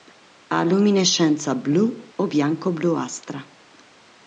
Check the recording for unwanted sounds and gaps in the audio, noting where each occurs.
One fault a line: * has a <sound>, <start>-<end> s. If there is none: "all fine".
all fine